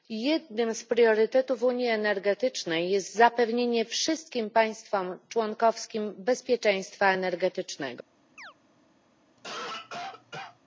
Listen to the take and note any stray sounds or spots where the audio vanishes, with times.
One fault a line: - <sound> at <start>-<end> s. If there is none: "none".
- chirp at 8.4-8.5 s
- cough at 9.4-10.6 s